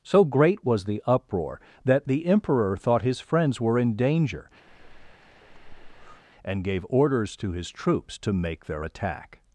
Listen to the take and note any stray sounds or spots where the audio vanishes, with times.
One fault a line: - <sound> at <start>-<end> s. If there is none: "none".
- breath at 4.7-6.2 s